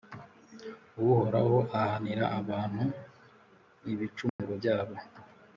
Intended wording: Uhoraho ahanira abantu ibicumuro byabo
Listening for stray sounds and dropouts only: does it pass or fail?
fail